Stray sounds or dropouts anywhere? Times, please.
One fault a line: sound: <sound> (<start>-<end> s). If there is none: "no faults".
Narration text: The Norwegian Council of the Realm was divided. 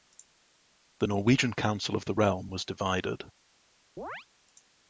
sound: chirp (4.0-4.3 s)